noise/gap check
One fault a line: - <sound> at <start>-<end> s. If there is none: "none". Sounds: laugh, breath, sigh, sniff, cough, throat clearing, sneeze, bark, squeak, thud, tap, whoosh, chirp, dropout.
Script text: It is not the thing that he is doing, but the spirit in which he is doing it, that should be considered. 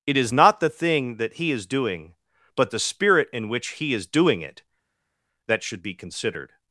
none